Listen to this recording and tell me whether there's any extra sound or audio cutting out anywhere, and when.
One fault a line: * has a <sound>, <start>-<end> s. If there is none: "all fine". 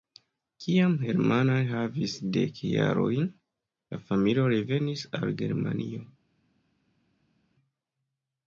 all fine